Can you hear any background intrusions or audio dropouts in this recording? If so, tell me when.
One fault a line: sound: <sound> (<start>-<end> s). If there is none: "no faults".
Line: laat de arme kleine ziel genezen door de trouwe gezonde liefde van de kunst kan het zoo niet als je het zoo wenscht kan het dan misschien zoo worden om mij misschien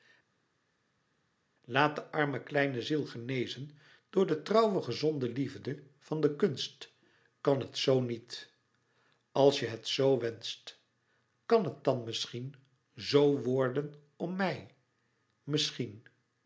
no faults